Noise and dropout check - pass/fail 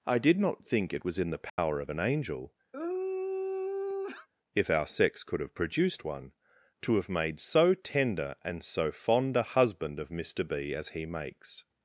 fail